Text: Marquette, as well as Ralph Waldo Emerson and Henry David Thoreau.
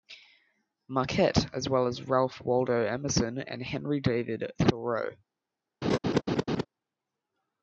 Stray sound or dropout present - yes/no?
yes